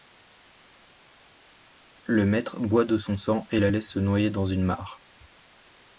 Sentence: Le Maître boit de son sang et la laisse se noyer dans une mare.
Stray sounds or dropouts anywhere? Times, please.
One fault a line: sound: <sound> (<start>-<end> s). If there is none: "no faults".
no faults